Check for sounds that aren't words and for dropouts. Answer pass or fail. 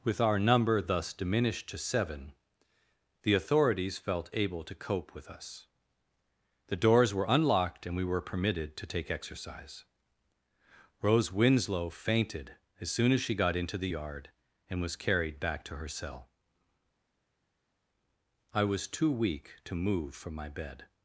pass